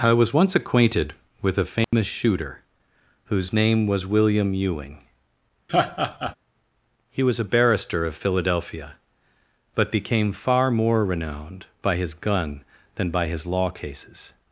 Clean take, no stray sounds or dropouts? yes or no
no